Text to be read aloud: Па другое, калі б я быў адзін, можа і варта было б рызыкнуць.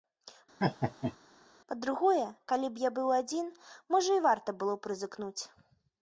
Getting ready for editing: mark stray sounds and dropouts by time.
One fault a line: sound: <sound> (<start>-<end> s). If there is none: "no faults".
sound: laugh (0.6-1.2 s)